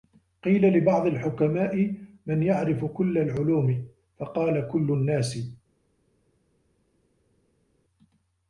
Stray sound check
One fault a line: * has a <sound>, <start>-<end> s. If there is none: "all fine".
all fine